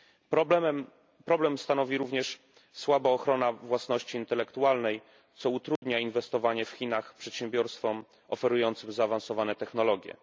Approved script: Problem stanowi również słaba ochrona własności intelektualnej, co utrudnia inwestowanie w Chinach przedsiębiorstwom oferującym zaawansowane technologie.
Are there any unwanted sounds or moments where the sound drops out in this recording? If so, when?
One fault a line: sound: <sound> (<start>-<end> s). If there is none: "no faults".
sound: dropout (5.8-5.8 s)